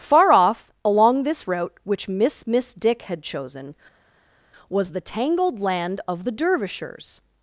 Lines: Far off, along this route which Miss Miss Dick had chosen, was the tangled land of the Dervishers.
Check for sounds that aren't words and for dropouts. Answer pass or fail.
pass